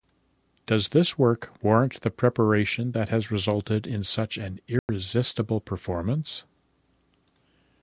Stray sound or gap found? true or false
true